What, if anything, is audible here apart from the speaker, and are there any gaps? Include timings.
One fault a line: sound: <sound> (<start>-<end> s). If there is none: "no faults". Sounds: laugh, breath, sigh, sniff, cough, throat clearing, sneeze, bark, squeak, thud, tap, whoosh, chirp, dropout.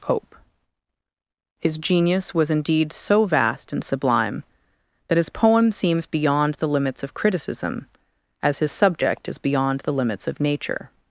no faults